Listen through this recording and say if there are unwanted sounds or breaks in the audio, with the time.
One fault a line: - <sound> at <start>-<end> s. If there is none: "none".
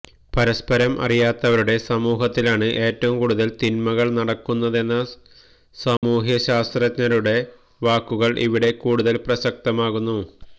- dropout at 6.0-6.0 s